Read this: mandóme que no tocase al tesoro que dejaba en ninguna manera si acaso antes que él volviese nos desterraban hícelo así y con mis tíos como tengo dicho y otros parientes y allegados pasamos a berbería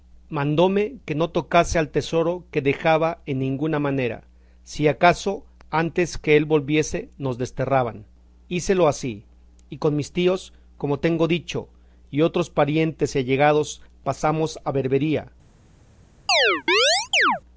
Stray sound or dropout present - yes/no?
yes